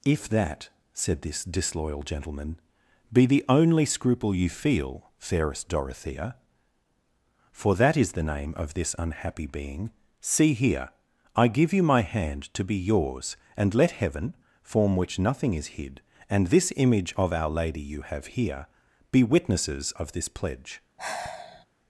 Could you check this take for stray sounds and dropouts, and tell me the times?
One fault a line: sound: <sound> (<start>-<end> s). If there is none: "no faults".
sound: sigh (21.0-21.7 s)